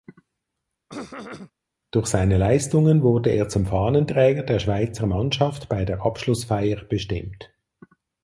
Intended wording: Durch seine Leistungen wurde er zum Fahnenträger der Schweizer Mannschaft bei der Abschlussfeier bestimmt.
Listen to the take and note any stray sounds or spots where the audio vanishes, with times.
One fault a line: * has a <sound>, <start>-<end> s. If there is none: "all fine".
* has a throat clearing, 0.9-1.5 s